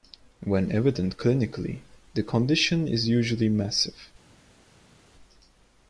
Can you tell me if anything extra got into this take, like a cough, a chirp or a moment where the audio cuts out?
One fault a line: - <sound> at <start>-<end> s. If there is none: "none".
none